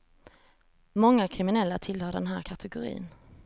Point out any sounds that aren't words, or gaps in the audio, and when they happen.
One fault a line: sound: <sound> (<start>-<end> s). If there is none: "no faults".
no faults